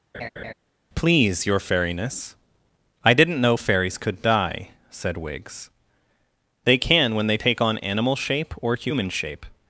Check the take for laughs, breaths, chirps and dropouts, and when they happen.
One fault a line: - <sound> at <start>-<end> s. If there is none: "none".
- laugh at 0.1-0.5 s